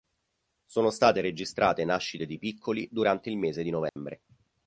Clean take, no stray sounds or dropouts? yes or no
no